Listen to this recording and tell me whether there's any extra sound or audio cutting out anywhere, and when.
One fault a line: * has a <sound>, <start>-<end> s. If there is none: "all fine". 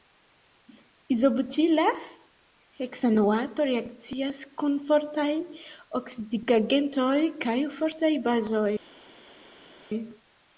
all fine